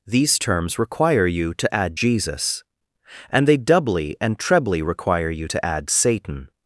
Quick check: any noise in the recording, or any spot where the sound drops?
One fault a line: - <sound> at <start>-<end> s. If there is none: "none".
none